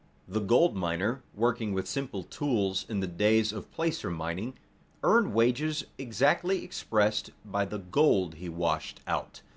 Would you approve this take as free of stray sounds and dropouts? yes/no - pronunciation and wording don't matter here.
yes